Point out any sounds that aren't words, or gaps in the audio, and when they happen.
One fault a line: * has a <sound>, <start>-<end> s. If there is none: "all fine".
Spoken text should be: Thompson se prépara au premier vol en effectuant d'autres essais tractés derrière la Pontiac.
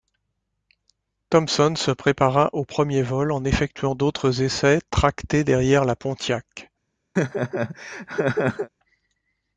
* has a laugh, 7.2-8.7 s